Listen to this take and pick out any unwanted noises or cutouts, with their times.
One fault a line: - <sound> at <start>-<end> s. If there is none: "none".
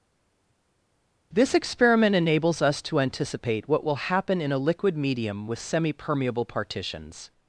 none